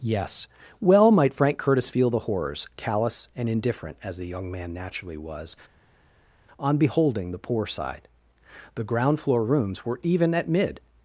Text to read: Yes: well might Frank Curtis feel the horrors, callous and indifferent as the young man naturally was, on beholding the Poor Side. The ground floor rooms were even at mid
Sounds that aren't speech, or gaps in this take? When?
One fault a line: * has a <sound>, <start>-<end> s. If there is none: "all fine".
all fine